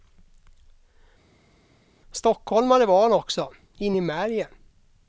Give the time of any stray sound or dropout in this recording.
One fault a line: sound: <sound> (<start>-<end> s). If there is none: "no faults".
no faults